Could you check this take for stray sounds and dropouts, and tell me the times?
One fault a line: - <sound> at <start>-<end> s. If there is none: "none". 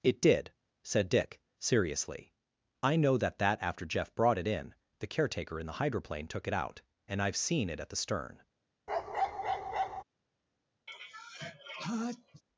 - bark at 8.9-10.0 s
- sneeze at 10.9-12.4 s